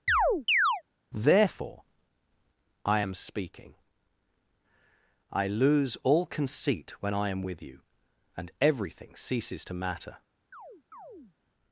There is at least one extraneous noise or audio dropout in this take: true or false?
true